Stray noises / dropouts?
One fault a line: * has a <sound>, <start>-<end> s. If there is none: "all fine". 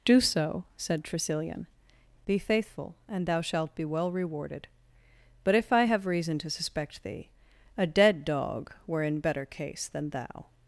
all fine